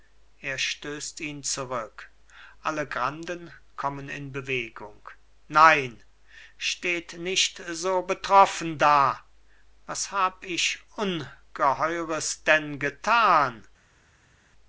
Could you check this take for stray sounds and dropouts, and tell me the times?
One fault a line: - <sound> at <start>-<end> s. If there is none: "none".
none